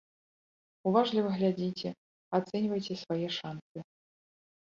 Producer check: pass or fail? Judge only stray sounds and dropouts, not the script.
pass